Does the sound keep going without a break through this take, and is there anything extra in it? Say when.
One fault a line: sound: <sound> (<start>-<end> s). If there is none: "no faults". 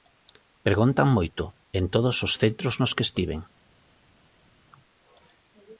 no faults